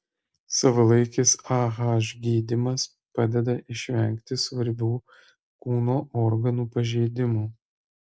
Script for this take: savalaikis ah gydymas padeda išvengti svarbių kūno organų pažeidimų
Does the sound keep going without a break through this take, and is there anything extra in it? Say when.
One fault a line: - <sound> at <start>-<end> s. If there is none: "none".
none